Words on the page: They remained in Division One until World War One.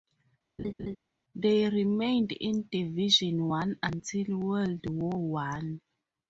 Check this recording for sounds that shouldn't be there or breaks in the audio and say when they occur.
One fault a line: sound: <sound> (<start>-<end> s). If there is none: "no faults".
sound: laugh (0.6-1.0 s)